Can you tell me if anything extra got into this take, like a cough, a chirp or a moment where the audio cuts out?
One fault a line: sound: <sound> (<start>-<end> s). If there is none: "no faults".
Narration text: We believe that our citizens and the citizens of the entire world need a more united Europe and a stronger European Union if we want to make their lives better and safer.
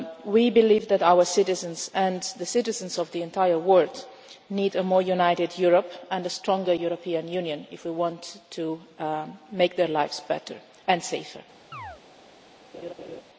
sound: chirp (11.7-12.0 s)
sound: laugh (12.7-13.2 s)